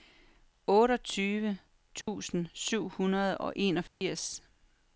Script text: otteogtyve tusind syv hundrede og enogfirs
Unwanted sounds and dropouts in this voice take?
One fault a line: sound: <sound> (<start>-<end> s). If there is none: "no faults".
sound: dropout (2.0-2.1 s)
sound: dropout (3.9-4.0 s)